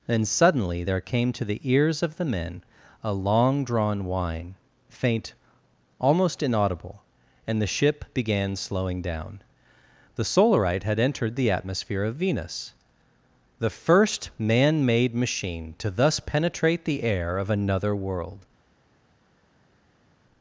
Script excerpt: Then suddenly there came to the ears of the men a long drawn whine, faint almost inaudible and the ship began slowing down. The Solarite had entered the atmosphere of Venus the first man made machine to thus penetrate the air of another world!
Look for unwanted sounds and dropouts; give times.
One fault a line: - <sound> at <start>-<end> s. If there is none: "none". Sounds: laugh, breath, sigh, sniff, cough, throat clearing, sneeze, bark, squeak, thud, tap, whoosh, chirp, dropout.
none